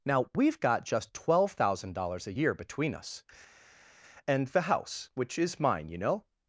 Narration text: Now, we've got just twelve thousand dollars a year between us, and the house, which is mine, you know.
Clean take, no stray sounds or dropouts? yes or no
yes